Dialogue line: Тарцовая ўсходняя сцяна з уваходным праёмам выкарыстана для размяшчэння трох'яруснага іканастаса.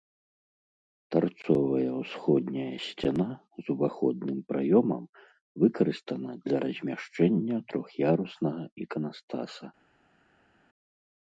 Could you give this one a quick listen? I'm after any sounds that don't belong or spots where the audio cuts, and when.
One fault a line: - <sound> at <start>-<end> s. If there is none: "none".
none